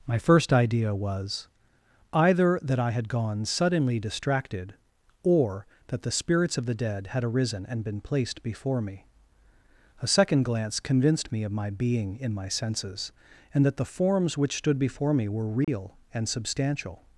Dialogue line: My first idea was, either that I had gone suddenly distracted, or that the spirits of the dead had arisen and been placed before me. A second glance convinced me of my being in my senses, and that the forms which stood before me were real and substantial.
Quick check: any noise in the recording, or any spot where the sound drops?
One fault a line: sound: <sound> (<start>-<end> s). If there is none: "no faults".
sound: dropout (15.6-15.7 s)